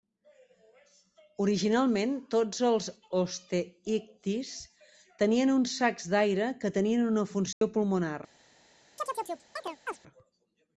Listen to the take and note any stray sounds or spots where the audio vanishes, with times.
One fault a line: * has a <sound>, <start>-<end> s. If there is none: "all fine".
* has a dropout, 7.5-7.6 s
* has a chirp, 9.0-10.0 s